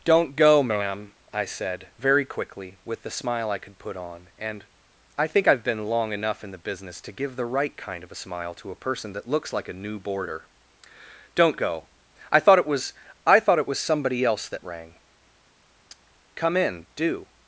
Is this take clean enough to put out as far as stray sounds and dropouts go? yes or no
yes